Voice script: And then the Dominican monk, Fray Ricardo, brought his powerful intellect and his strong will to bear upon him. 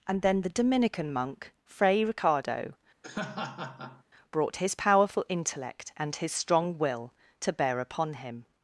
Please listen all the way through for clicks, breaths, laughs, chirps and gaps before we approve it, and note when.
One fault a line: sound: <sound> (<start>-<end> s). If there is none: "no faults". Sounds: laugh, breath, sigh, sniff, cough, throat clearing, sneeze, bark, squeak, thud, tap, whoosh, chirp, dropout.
sound: laugh (3.0-4.0 s)